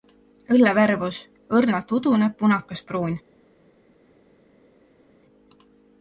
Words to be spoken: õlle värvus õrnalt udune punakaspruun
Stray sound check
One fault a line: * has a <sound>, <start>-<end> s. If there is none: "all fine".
all fine